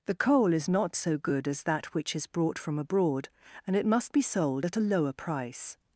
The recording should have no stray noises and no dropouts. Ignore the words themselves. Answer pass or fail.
pass